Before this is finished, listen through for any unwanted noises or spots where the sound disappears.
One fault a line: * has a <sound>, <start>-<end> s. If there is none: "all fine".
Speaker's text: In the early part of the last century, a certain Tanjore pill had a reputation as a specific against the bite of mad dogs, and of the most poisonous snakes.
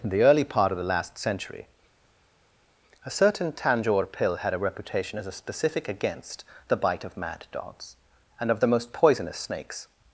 all fine